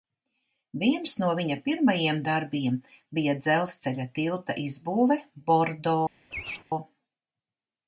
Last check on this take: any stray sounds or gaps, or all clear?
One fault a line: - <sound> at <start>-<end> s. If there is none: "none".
- laugh at 6.3-6.6 s